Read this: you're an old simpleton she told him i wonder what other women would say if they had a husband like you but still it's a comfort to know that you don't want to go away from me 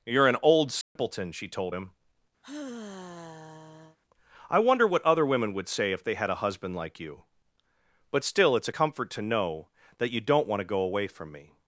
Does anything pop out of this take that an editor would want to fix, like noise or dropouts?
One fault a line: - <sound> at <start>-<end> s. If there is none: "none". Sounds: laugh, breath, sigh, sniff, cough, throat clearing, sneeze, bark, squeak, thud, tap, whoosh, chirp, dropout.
- dropout at 0.8-1.0 s
- sigh at 2.4-4.0 s